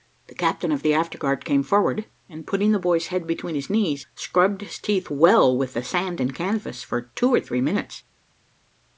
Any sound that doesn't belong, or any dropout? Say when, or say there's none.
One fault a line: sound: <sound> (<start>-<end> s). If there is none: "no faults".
no faults